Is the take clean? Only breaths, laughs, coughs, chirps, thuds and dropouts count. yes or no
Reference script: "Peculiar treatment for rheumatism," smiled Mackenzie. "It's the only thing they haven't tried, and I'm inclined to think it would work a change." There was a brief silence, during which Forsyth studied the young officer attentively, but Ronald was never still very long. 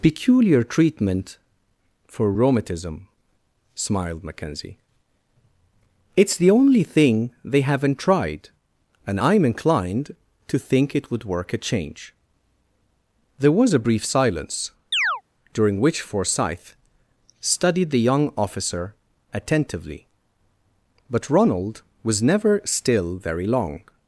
no